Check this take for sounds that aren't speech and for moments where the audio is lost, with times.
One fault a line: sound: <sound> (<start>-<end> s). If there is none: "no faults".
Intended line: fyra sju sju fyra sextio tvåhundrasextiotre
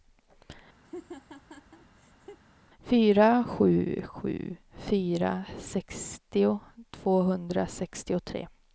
sound: laugh (0.8-2.4 s)